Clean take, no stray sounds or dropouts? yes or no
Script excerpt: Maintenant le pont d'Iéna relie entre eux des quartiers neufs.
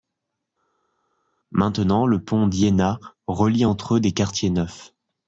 yes